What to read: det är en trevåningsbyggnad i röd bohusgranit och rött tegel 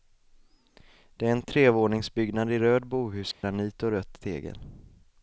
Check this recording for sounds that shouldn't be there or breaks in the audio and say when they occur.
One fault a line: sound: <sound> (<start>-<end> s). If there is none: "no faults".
sound: dropout (3.3-3.4 s)